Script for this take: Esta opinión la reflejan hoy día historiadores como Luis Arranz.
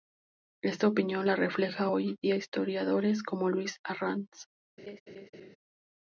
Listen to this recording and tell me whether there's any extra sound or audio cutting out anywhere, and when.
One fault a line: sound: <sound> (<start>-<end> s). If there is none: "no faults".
sound: laugh (4.8-5.6 s)